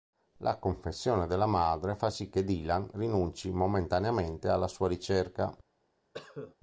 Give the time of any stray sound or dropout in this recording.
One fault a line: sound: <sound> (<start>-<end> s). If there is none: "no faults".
sound: cough (6.1-6.6 s)